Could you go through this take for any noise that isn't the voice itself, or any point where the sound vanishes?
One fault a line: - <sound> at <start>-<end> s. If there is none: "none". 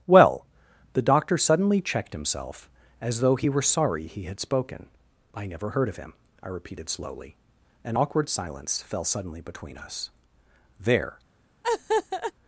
- laugh at 11.6-12.3 s